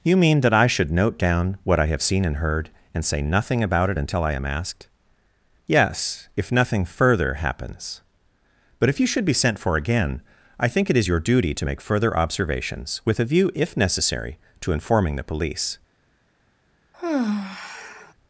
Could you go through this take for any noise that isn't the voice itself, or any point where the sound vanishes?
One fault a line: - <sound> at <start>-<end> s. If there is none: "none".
- sigh at 16.9-18.1 s